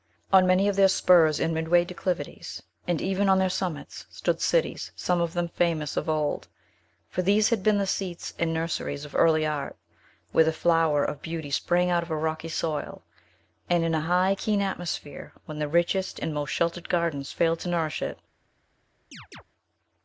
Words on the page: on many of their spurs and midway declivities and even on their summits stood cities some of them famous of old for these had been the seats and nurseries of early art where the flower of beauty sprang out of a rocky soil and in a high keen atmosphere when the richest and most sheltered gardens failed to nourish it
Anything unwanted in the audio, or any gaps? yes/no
yes